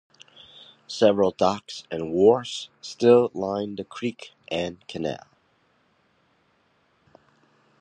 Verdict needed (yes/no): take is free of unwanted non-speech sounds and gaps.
yes